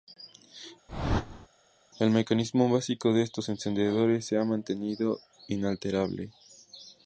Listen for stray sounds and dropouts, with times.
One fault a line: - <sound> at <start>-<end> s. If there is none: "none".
- whoosh at 0.9-1.5 s